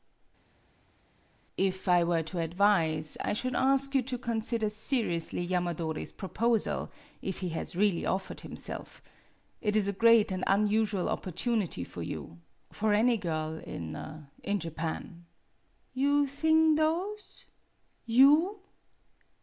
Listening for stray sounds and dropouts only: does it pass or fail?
pass